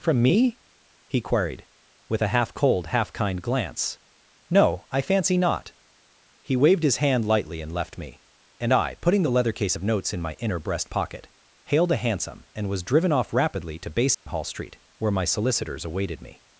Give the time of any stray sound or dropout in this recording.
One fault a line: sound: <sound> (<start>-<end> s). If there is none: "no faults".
sound: dropout (14.1-14.3 s)